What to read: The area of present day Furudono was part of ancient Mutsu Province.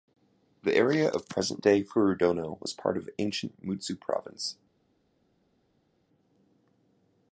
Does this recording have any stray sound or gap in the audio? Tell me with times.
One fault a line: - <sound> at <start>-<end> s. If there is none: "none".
none